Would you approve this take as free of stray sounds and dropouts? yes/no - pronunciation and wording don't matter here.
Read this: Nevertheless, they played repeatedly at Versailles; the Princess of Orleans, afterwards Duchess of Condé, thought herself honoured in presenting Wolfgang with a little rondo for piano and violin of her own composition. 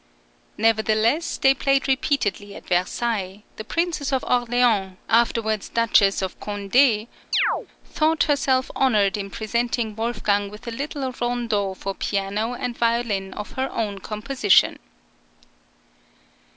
no